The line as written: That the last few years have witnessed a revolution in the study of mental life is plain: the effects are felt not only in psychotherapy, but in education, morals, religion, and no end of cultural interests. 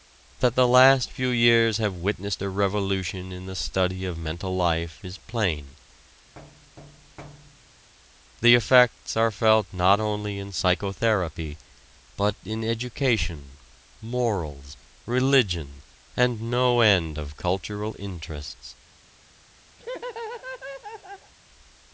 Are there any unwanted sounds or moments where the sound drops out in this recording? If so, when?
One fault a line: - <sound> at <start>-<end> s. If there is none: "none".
- thud at 6.4-7.9 s
- laugh at 19.8-21.3 s